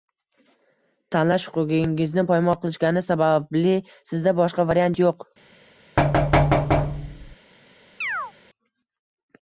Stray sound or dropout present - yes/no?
yes